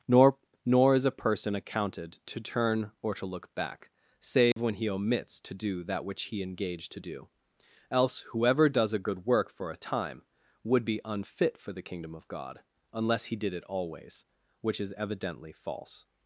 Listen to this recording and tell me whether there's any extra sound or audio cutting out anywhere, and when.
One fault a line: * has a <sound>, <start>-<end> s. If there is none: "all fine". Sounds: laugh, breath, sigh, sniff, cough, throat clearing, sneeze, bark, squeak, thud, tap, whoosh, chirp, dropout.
* has a dropout, 4.5-4.6 s